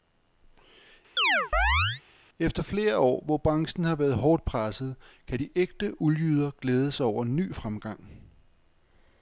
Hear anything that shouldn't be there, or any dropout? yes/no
yes